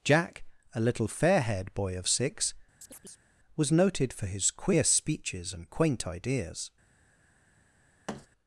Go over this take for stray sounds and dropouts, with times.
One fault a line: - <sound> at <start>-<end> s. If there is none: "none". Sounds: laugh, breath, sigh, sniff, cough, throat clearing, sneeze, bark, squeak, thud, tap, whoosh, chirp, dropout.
- chirp at 2.8-3.3 s
- thud at 8.1-8.3 s